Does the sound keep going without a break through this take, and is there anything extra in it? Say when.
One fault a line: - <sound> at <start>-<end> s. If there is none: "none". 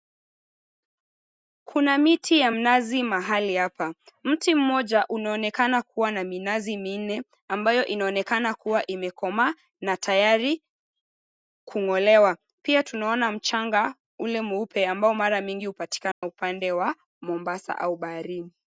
- dropout at 16.1-16.2 s